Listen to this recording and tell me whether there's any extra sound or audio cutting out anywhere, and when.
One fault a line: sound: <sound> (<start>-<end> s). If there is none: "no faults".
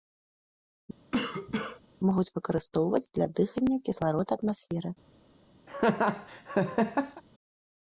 sound: cough (1.1-1.8 s)
sound: laugh (5.7-7.2 s)